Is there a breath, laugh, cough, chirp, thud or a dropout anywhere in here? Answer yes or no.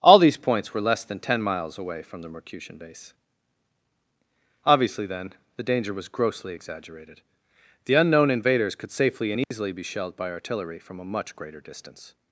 yes